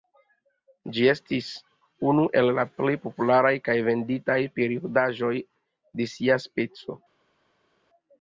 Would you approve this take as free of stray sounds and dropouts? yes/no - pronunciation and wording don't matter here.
yes